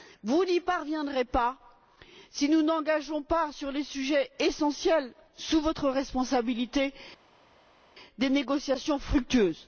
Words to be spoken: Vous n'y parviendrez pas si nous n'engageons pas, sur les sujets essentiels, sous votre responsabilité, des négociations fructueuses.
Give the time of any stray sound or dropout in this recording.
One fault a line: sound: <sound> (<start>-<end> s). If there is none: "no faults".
no faults